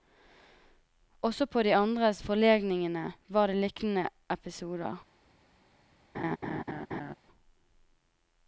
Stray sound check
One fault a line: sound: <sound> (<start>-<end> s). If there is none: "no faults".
sound: laugh (6.1-7.1 s)